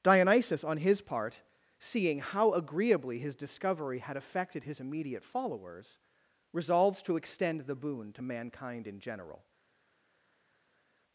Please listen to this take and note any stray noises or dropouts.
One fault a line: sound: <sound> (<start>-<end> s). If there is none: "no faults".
no faults